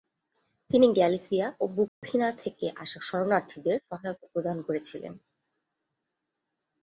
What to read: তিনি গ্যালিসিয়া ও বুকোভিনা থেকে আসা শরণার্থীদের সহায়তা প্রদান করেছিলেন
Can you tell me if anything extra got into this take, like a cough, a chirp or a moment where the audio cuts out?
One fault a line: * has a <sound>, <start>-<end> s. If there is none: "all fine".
* has a dropout, 1.9-2.0 s